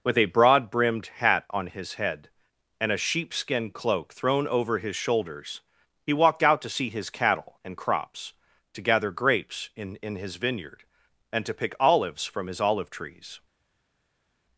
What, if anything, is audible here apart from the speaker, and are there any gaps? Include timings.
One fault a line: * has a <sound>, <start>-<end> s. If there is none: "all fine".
all fine